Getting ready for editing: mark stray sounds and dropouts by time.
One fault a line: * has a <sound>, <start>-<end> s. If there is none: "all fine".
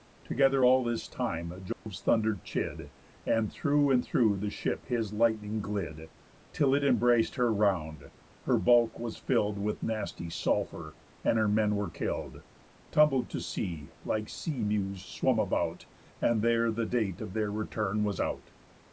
* has a dropout, 1.7-1.9 s